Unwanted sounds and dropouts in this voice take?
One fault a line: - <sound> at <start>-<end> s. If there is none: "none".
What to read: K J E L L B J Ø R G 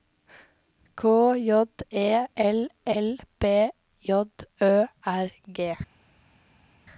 none